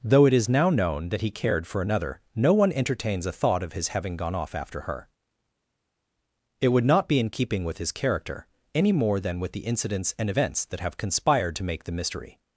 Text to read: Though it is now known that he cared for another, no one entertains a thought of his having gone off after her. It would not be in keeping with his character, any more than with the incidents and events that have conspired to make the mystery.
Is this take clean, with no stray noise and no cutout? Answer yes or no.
yes